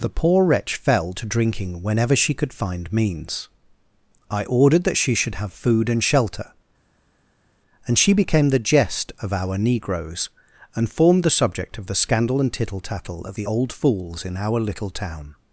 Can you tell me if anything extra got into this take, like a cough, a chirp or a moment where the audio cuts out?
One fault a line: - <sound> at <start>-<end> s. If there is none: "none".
none